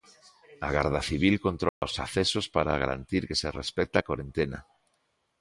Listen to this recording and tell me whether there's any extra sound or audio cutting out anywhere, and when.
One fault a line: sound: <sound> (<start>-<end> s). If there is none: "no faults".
sound: dropout (1.7-1.8 s)